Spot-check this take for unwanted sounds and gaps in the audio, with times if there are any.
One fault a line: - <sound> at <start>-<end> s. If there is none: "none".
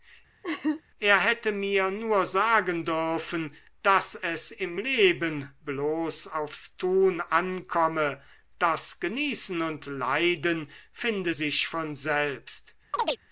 - laugh at 0.4-0.8 s
- chirp at 12.9-13.2 s